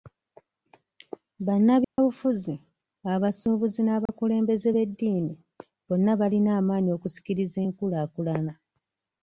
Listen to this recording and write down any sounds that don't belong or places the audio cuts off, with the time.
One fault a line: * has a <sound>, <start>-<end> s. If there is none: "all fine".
* has a dropout, 1.8-2.0 s
* has a dropout, 4.1-4.1 s